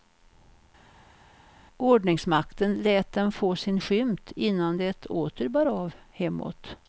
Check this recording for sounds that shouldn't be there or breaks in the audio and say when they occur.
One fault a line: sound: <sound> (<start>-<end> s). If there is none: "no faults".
no faults